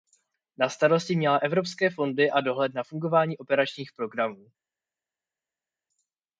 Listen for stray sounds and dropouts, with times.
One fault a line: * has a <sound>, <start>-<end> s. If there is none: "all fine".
all fine